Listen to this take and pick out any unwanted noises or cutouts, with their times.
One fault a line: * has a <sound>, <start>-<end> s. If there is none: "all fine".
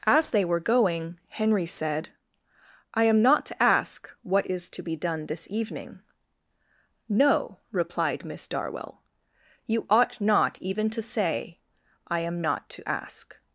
all fine